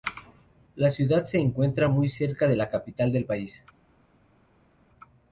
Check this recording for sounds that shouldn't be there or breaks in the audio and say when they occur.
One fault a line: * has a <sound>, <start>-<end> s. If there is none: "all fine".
all fine